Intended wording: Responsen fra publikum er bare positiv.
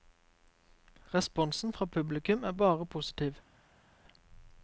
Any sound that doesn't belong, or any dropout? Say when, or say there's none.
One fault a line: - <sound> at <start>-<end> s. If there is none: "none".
none